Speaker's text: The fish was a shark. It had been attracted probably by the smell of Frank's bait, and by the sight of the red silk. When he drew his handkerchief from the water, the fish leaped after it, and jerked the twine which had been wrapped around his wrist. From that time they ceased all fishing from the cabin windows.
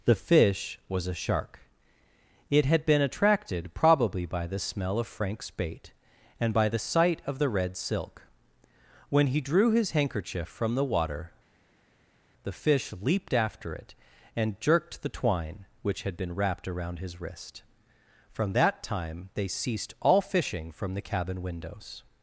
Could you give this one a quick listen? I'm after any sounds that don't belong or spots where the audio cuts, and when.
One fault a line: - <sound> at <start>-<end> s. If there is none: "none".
none